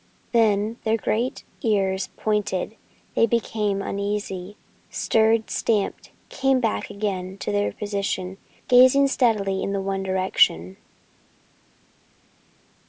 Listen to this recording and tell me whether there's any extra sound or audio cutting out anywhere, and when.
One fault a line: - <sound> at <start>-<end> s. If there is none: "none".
none